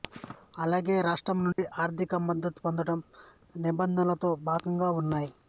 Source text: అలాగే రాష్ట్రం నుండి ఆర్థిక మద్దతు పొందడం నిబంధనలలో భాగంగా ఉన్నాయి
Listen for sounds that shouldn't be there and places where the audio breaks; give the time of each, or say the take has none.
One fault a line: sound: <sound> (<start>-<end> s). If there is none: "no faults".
sound: dropout (1.5-1.6 s)